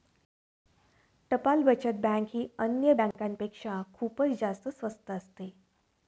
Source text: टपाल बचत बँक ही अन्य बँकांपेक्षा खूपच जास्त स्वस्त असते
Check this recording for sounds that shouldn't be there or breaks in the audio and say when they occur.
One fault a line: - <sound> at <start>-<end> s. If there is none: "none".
- dropout at 3.1-3.1 s